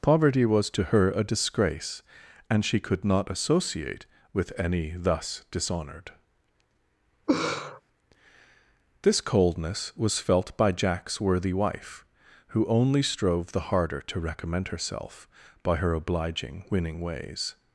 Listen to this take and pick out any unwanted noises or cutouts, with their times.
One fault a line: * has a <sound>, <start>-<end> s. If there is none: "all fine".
* has a laugh, 7.3-7.8 s